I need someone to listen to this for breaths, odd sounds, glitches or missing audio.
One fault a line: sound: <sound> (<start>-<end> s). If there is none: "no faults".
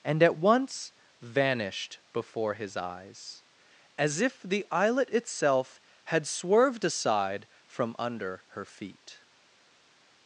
no faults